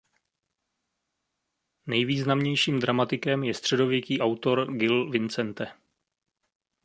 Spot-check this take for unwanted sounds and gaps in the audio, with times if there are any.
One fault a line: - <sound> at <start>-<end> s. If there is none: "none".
none